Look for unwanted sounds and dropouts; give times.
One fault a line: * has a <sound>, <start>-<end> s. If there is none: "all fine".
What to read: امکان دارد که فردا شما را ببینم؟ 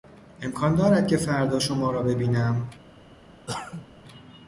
* has a cough, 3.5-3.9 s